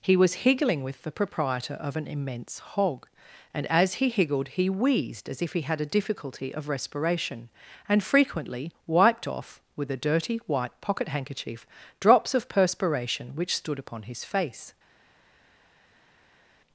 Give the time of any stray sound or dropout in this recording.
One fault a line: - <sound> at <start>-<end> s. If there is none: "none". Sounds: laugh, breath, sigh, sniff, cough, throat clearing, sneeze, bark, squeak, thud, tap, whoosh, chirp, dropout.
none